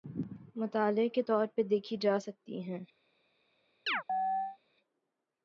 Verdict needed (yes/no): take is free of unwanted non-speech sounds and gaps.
no